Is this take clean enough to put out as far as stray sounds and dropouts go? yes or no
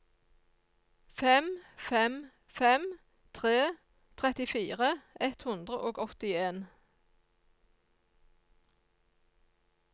yes